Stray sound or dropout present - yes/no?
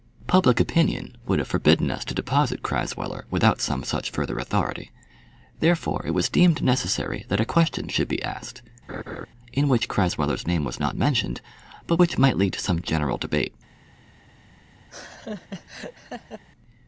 yes